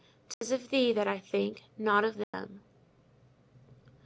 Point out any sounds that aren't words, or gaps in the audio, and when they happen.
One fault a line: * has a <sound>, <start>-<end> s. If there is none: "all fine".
* has a dropout, 0.3-0.4 s
* has a dropout, 2.2-2.3 s